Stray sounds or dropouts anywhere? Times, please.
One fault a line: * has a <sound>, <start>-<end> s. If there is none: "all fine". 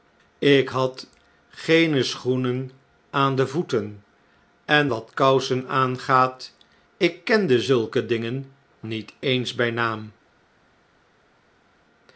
all fine